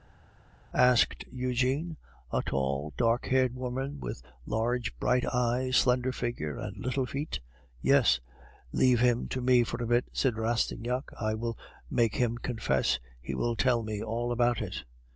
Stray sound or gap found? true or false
false